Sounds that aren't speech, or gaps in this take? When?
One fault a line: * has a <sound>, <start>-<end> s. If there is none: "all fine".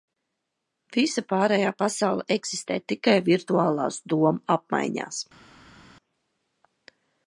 all fine